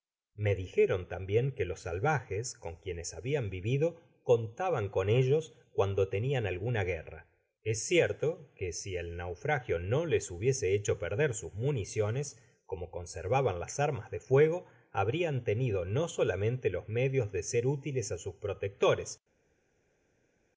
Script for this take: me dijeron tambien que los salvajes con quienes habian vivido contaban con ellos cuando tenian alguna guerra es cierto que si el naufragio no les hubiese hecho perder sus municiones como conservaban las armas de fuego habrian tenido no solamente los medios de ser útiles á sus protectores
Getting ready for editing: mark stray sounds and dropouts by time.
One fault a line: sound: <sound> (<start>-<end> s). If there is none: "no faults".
no faults